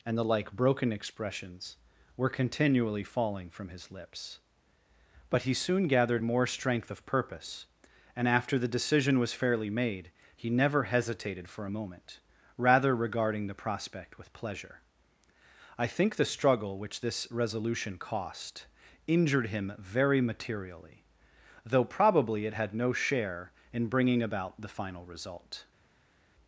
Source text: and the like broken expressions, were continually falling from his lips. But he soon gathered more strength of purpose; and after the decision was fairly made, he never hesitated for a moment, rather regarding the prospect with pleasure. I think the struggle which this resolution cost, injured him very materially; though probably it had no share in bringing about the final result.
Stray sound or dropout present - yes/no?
no